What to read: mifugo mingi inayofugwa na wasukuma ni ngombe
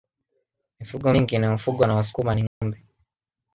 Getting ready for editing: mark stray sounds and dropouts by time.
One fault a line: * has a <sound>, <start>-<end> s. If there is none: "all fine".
* has a dropout, 2.5-2.6 s